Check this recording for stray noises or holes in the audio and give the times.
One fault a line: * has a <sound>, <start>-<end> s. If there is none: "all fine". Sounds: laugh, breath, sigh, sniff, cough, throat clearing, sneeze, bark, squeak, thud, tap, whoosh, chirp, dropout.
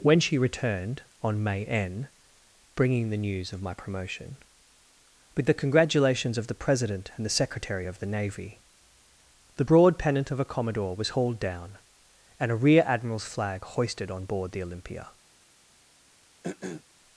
* has a throat clearing, 16.4-16.8 s